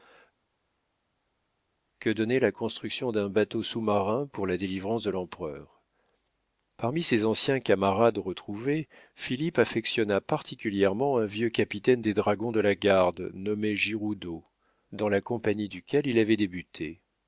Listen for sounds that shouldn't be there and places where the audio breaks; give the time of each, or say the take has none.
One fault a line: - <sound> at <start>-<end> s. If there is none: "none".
none